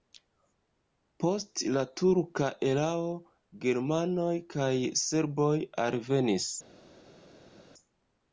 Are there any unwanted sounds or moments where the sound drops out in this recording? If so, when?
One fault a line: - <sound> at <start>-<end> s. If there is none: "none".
none